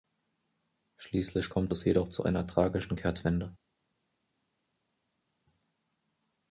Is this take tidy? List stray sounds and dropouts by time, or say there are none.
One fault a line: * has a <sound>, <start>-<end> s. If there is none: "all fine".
all fine